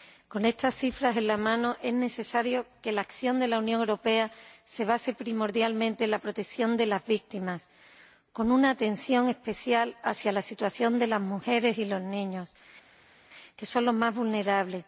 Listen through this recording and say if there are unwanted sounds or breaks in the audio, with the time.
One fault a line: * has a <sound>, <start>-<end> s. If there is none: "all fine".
all fine